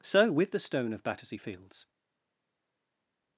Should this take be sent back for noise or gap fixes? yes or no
no